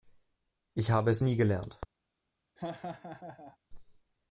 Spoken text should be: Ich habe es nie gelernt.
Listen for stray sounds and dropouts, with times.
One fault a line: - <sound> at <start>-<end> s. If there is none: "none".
- laugh at 2.6-3.6 s